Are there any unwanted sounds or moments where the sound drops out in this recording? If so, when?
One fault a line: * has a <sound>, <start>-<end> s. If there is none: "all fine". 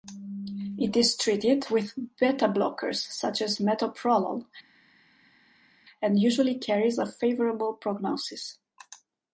all fine